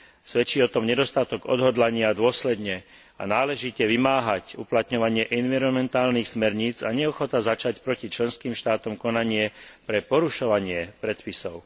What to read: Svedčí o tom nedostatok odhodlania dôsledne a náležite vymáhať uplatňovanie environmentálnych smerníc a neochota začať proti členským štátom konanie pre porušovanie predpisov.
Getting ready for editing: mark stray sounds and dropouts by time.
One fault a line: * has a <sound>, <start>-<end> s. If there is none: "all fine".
all fine